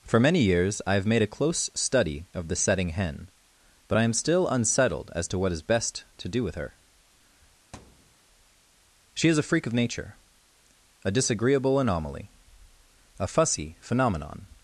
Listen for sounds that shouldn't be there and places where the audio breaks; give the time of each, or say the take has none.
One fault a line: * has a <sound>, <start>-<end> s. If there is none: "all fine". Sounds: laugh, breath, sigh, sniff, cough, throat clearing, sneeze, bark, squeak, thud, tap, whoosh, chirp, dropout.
* has a thud, 7.7-8.2 s